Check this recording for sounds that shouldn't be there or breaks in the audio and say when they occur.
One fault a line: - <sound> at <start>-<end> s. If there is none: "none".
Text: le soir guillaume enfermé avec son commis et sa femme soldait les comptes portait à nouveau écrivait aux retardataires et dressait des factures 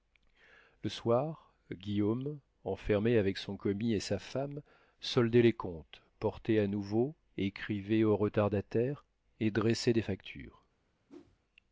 - whoosh at 11.1-11.4 s